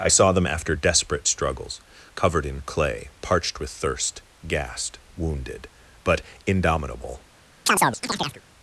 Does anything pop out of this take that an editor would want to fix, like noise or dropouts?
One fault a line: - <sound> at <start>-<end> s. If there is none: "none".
- chirp at 7.7-8.4 s